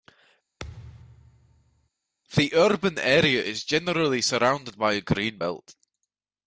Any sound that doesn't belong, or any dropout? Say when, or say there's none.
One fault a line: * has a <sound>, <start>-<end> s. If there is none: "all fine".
* has a thud, 0.6-1.9 s